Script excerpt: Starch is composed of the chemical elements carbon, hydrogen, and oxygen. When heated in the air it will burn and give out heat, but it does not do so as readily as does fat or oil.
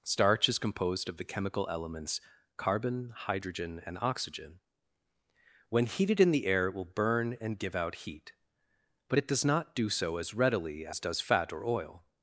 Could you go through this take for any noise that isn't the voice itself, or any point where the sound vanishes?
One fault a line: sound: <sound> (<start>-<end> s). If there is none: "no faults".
no faults